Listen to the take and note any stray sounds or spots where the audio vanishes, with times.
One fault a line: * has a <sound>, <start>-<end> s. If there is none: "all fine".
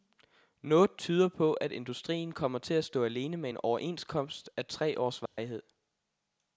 * has a dropout, 5.3-5.4 s